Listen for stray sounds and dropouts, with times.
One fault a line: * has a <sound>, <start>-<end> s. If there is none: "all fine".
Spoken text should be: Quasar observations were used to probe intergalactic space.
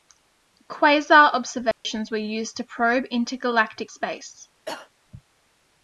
* has a dropout, 1.7-1.8 s
* has a cough, 4.7-4.9 s